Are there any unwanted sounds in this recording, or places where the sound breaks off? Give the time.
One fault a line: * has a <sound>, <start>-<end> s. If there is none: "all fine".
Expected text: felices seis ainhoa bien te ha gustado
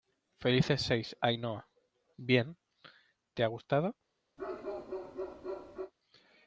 * has a bark, 4.4-5.9 s